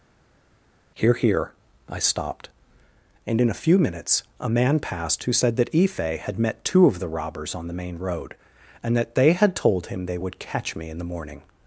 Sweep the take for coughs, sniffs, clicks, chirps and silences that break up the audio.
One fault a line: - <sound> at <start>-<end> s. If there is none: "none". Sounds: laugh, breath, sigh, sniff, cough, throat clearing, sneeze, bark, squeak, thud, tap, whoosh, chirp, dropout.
none